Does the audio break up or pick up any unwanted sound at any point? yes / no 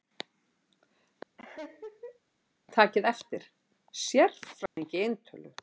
yes